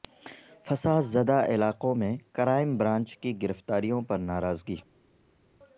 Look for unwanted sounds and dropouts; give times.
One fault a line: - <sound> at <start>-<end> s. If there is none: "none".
none